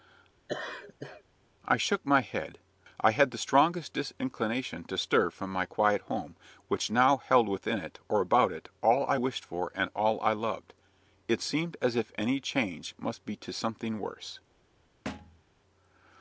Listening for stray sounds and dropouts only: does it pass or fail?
fail